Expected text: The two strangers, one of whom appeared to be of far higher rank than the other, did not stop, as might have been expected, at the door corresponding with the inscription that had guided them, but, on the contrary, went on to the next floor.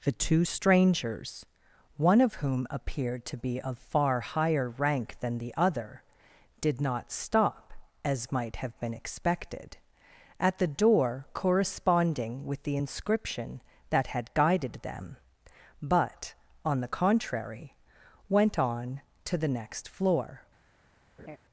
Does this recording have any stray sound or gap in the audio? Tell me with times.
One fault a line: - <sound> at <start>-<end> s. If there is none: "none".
- laugh at 21.2-21.4 s